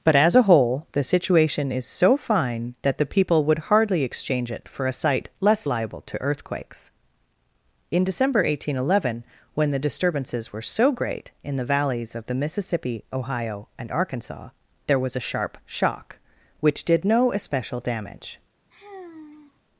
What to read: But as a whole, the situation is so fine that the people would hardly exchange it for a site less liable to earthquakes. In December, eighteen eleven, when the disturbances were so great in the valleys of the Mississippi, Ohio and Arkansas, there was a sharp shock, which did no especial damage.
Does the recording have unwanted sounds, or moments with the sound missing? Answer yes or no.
yes